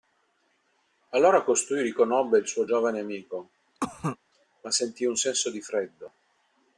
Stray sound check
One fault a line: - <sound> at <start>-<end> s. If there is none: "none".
- cough at 3.8-4.2 s